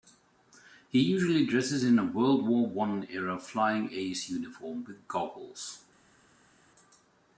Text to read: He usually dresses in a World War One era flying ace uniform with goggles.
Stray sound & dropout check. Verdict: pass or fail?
pass